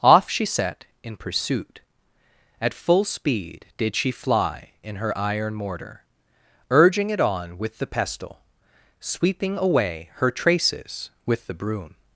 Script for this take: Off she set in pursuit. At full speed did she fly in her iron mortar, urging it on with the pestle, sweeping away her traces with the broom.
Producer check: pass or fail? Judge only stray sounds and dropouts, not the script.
pass